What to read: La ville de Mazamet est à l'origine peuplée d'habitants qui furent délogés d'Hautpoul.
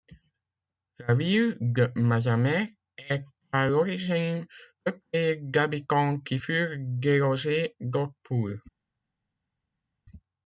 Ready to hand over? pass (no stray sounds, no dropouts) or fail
pass